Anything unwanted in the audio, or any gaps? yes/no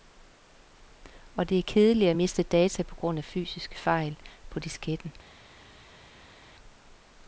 no